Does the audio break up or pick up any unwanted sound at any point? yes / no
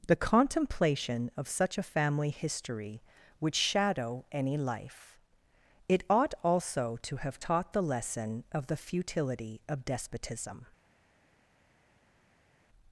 no